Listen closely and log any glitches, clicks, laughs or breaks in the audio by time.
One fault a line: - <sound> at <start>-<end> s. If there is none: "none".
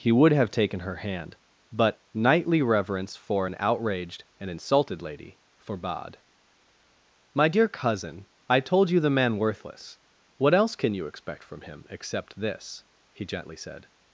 none